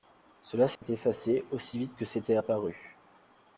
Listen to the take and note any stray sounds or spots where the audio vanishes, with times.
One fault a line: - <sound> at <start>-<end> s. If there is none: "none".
- dropout at 0.8-0.8 s